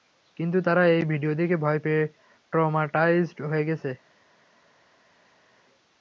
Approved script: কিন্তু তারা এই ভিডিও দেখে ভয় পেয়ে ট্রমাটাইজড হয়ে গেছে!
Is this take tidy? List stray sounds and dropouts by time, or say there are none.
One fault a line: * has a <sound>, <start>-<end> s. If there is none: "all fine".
all fine